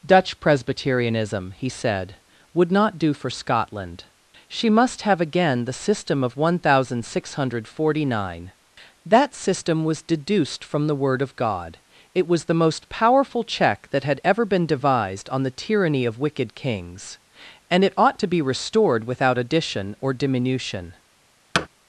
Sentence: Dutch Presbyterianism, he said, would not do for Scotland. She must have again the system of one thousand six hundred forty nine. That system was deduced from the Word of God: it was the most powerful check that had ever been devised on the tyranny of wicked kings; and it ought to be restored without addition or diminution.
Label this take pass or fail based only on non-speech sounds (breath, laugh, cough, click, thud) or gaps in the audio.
fail